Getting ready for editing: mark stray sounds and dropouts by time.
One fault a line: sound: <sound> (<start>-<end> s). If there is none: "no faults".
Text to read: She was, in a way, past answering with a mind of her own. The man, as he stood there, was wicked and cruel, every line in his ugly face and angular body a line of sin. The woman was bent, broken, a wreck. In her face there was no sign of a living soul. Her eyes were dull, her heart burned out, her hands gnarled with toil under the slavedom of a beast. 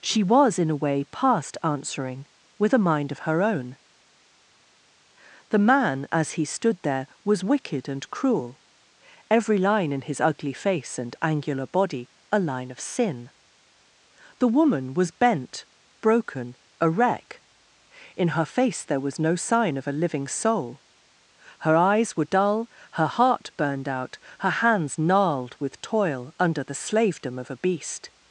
no faults